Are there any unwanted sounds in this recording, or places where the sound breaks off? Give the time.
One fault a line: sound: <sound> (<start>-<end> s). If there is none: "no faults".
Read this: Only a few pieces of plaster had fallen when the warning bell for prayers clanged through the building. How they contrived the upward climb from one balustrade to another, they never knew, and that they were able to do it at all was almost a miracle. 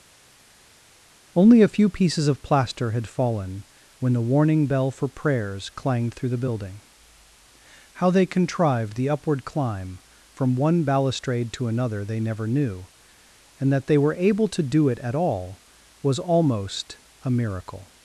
no faults